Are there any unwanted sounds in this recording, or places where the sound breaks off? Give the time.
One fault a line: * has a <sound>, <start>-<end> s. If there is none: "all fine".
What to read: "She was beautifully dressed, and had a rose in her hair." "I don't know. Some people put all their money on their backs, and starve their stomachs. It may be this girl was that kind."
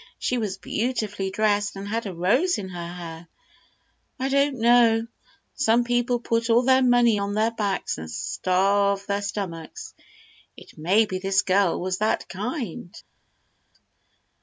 all fine